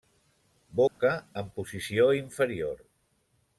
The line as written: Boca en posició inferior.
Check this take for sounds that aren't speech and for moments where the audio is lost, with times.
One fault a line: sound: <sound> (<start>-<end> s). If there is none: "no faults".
sound: dropout (0.9-1.0 s)